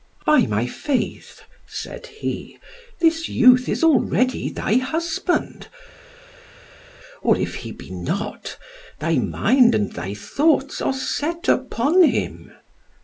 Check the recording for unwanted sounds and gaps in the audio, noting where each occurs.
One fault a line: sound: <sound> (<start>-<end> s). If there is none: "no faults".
no faults